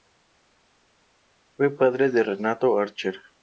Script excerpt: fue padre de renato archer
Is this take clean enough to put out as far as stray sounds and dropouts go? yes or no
yes